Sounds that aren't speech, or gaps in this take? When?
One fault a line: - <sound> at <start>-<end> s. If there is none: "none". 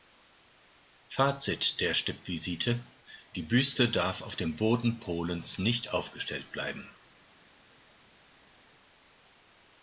none